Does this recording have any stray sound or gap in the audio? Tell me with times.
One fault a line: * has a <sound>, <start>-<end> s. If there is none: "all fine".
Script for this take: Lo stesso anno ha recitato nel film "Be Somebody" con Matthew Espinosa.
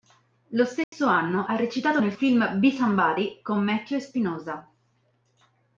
* has a dropout, 0.8-0.9 s